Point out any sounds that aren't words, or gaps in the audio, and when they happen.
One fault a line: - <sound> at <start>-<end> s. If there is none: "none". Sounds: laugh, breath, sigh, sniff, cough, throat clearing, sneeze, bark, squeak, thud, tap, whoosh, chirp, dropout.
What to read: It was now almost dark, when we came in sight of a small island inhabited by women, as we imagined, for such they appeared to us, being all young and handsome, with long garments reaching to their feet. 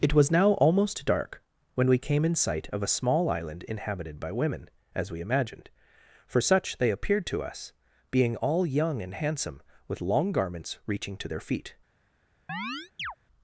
- chirp at 12.5-13.2 s